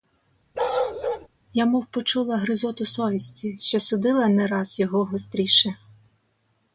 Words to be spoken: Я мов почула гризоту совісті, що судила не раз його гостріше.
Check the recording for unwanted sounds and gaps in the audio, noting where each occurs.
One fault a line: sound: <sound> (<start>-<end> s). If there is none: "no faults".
sound: bark (0.5-1.3 s)